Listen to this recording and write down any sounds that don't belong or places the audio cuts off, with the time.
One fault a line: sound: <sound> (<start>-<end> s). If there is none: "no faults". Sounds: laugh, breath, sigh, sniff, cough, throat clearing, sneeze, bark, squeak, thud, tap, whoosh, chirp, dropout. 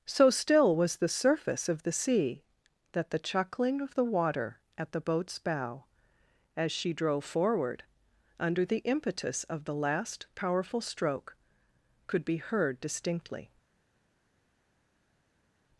no faults